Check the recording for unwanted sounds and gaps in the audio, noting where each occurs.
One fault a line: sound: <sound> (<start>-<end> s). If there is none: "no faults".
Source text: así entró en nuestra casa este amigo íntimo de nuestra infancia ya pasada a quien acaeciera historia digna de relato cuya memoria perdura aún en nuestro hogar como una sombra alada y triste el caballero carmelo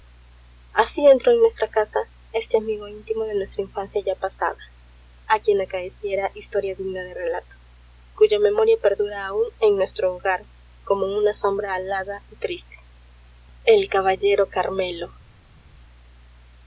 no faults